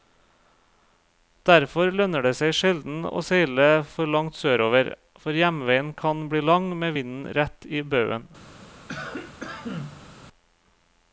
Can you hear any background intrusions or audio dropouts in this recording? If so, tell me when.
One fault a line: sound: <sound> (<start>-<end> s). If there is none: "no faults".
sound: cough (8.9-10.1 s)